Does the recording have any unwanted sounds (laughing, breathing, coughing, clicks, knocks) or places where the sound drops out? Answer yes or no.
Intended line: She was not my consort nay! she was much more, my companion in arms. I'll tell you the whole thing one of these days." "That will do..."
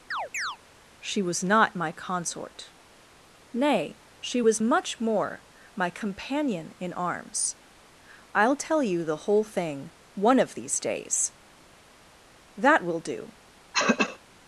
yes